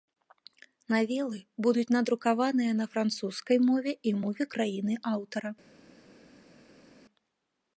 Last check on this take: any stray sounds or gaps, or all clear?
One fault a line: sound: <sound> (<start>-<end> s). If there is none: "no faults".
no faults